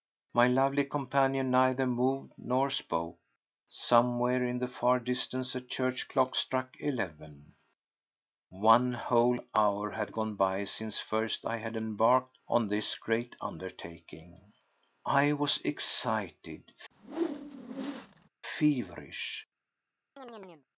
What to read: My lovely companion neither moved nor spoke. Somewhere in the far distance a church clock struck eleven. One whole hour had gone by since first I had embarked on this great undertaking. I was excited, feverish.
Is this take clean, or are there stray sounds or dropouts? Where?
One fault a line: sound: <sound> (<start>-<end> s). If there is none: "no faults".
sound: whoosh (16.9-18.3 s)
sound: chirp (20.2-20.7 s)